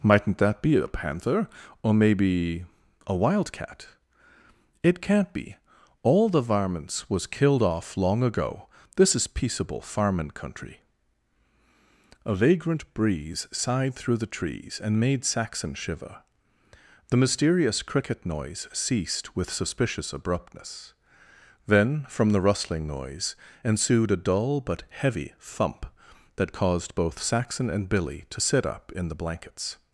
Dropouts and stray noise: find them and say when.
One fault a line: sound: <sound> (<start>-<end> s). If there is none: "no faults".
no faults